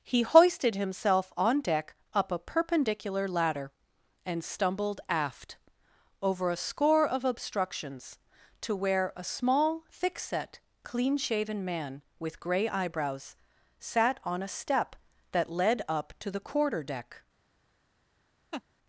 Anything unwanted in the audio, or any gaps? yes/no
yes